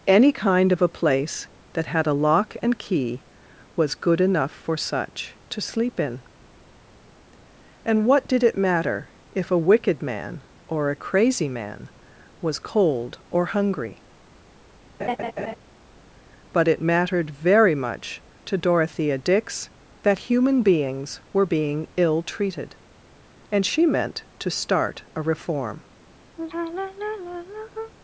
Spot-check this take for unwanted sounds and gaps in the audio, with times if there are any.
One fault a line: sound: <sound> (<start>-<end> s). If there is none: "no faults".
sound: laugh (15.0-15.6 s)
sound: sigh (26.4-27.9 s)